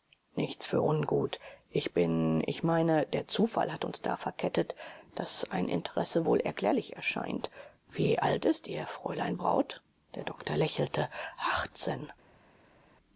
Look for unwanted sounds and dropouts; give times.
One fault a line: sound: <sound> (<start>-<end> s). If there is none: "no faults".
no faults